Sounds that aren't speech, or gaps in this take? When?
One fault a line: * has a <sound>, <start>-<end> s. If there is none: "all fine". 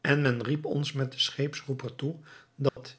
* has a dropout, 2.7-2.8 s